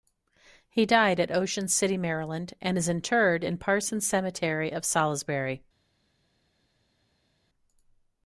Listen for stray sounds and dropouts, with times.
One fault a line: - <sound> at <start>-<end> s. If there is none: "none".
none